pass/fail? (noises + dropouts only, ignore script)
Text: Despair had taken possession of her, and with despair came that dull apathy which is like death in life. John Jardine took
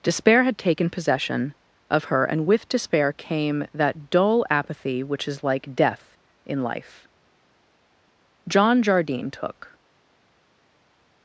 pass